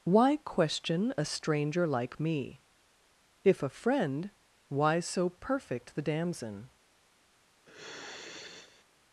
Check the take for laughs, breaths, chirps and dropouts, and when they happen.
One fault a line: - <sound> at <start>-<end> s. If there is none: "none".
- sigh at 7.7-8.9 s